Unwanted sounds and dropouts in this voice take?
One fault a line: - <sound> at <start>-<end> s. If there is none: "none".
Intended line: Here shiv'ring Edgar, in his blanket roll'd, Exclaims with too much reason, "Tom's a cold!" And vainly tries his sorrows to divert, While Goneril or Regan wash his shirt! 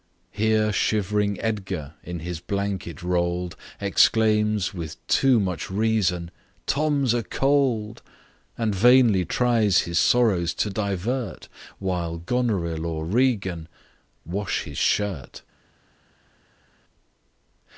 none